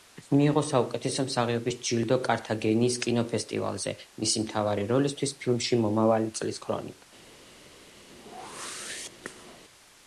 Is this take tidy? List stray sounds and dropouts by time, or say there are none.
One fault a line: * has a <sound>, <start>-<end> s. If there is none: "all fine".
* has a whoosh, 8.1-9.6 s